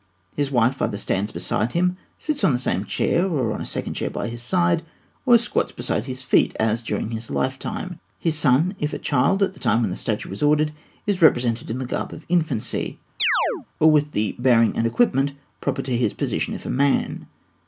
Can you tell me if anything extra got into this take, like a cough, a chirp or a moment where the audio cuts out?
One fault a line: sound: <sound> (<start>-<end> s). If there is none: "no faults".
sound: chirp (13.2-13.7 s)